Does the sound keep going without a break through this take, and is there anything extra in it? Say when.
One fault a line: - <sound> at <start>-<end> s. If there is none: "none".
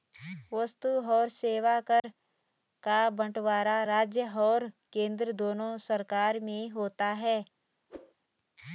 - dropout at 2.0-2.0 s
- whoosh at 7.9-8.1 s